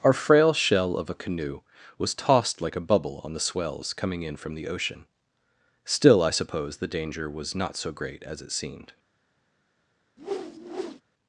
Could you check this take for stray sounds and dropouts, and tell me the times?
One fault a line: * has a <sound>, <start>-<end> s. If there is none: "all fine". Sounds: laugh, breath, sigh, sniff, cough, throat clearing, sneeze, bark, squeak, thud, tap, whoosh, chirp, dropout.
* has a whoosh, 10.2-11.0 s